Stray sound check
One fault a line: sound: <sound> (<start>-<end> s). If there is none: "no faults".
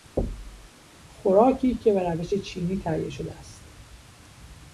sound: thud (0.2-0.7 s)